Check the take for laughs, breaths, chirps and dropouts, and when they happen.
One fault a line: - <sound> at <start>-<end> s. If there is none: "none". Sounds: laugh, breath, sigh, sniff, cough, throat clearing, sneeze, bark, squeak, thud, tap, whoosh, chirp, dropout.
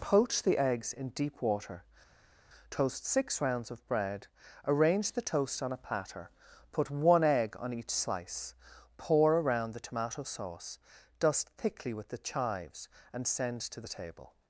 none